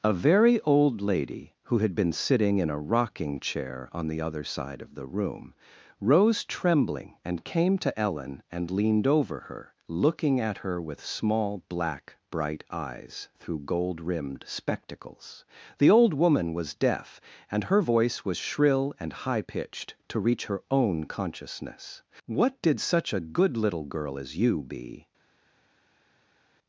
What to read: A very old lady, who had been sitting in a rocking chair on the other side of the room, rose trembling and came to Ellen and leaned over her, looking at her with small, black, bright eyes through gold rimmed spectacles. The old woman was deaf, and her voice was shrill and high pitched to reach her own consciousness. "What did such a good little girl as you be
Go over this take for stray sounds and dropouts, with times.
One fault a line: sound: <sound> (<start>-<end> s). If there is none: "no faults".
no faults